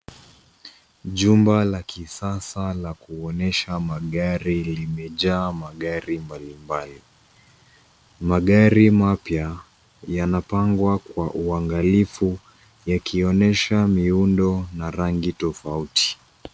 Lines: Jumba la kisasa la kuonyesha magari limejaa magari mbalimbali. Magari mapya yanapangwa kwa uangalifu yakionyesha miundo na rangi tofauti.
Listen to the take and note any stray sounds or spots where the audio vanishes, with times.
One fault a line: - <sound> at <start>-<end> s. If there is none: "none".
none